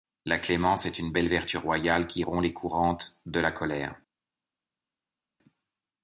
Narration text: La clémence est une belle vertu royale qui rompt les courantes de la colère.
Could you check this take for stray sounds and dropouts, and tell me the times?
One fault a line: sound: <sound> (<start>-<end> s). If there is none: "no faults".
no faults